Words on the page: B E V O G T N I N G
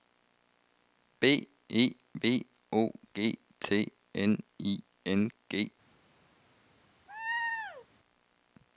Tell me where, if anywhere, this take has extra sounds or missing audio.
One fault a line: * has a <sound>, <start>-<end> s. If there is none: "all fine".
* has a laugh, 7.1-7.9 s